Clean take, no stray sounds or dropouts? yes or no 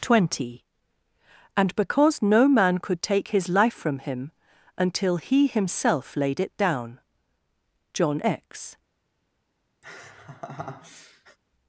no